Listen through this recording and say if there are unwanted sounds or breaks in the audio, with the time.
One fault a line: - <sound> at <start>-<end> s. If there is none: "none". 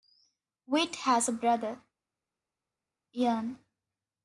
none